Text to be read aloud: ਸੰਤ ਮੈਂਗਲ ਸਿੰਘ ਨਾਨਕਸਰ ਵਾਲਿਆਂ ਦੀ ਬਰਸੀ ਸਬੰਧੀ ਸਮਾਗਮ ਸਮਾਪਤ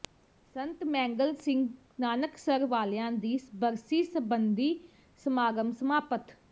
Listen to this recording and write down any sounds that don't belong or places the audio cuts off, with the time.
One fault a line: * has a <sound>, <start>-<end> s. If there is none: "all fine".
all fine